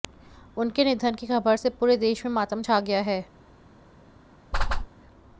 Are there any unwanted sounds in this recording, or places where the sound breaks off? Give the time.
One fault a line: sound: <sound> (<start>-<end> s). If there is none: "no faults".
sound: whoosh (4.5-4.9 s)